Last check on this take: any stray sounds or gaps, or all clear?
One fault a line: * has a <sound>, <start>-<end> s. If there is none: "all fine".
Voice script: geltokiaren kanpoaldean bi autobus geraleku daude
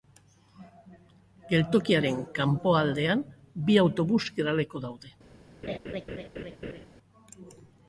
* has a laugh, 5.6-6.9 s